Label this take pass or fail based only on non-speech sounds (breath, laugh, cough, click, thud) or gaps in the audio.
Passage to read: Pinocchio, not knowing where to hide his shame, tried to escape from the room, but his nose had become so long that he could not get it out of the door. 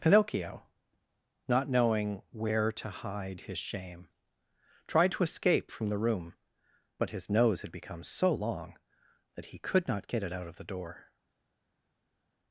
pass